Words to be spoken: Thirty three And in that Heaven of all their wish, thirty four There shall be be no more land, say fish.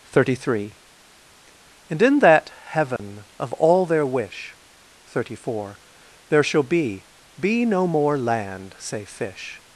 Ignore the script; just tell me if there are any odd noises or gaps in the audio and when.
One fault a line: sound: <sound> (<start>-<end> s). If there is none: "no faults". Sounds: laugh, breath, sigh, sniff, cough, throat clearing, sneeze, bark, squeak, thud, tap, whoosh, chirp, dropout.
sound: dropout (3.0-3.0 s)